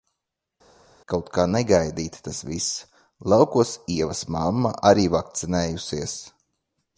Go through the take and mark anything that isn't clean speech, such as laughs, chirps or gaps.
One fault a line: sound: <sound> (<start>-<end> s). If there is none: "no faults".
no faults